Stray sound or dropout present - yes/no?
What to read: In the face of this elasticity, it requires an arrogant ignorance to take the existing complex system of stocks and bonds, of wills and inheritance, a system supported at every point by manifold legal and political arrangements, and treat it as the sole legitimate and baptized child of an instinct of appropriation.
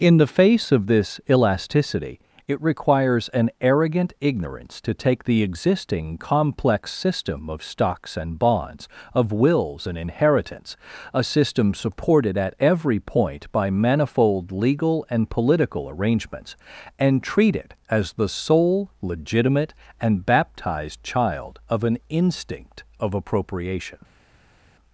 no